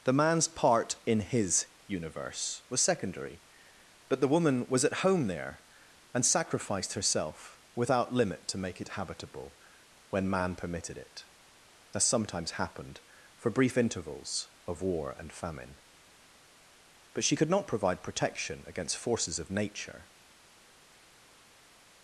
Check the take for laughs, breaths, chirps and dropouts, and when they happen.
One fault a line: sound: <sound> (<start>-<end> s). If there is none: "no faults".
no faults